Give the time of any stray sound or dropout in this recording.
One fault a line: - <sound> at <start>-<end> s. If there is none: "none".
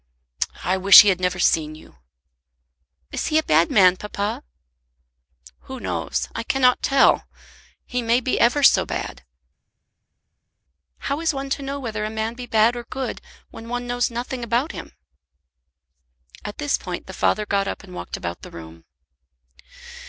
none